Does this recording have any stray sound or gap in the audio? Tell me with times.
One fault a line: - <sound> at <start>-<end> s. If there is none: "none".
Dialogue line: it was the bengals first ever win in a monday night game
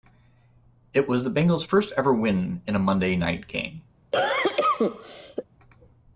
- cough at 4.1-5.4 s